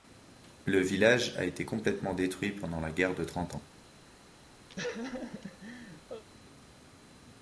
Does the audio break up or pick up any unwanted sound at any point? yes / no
yes